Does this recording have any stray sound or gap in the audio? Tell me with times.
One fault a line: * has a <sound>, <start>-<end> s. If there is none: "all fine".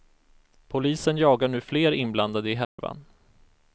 * has a dropout, 2.6-2.8 s